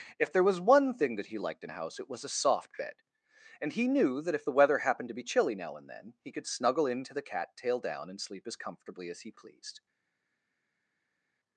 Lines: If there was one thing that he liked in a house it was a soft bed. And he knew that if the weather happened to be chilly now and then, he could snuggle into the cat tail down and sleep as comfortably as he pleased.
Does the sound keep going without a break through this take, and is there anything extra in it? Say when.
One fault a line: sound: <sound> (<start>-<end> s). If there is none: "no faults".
no faults